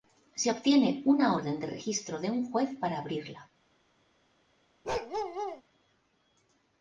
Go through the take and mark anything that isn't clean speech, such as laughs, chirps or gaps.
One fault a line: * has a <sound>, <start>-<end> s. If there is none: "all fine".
* has a bark, 4.8-5.6 s